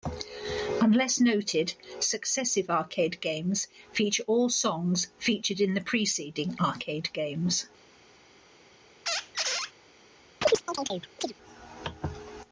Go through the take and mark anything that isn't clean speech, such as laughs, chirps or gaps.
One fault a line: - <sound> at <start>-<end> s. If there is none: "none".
- squeak at 9.1-9.7 s
- chirp at 10.4-11.3 s